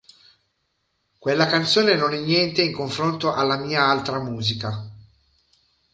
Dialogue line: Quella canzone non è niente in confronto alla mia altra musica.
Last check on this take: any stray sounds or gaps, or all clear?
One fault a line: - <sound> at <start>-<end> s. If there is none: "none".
none